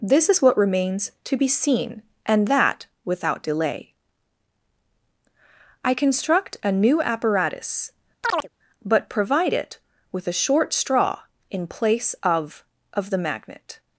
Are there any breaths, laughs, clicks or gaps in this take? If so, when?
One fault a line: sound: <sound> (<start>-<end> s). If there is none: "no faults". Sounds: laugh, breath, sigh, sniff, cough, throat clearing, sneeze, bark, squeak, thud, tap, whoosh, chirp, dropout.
sound: chirp (8.2-8.5 s)